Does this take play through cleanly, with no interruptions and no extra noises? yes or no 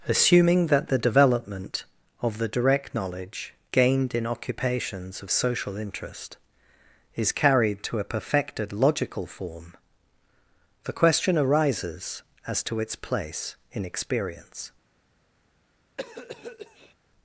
no